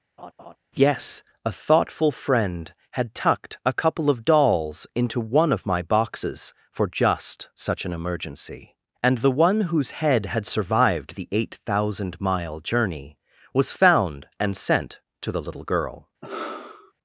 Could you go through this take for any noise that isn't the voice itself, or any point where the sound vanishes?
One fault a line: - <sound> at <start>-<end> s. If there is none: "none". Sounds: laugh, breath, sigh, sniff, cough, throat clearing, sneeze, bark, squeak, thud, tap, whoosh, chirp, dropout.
- laugh at 0.2-0.6 s
- sigh at 16.2-16.9 s